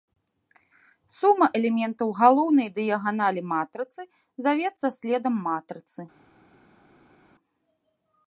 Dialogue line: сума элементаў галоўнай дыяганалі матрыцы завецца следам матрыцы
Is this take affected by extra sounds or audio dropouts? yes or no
no